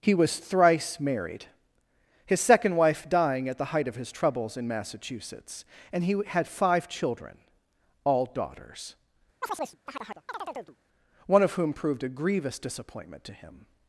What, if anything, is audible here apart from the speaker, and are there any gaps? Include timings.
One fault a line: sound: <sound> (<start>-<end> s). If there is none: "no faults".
sound: chirp (9.4-10.8 s)